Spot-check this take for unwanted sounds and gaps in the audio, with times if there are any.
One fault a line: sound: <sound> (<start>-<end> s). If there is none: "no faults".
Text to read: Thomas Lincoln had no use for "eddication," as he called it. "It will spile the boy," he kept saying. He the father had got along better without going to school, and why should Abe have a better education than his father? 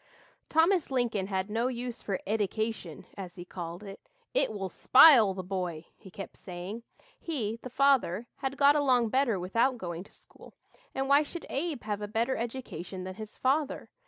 no faults